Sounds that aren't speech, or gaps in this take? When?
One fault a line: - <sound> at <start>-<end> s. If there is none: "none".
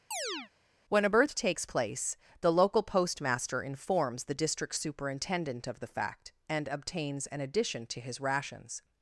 - chirp at 0.1-0.5 s